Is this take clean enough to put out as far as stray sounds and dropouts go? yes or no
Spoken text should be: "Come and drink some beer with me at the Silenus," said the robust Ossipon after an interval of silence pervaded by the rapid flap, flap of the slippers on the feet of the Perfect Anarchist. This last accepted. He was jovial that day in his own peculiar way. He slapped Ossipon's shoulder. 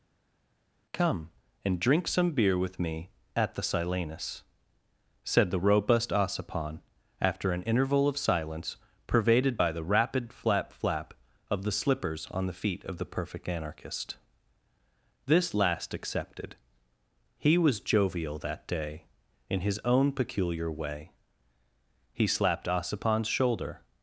yes